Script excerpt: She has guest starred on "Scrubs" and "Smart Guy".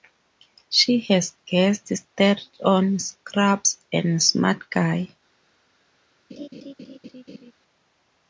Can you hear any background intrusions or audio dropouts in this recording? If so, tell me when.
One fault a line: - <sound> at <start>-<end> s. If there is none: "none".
- laugh at 6.3-7.5 s